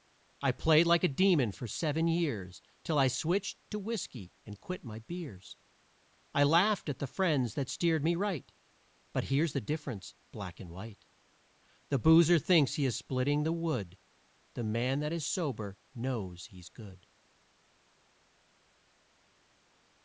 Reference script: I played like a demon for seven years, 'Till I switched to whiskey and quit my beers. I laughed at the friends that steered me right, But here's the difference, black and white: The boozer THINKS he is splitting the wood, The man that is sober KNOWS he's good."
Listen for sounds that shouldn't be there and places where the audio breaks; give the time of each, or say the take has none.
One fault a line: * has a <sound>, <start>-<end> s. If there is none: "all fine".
all fine